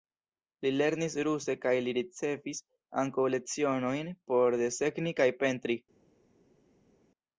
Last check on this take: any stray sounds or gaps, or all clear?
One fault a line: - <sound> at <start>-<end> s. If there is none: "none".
none